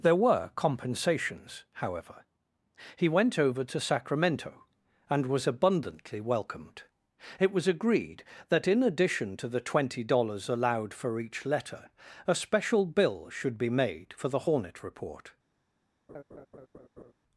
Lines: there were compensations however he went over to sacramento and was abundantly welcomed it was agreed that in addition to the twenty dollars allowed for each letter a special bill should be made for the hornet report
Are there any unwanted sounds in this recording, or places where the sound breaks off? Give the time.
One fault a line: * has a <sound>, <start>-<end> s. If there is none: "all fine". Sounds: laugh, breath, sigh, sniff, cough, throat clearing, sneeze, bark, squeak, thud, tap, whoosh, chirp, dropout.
* has a laugh, 16.1-17.1 s